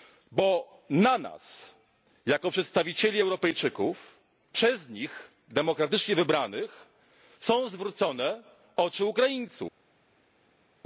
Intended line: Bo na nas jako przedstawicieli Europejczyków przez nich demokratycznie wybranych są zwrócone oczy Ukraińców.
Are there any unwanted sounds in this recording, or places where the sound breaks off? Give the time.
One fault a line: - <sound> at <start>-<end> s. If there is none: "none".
none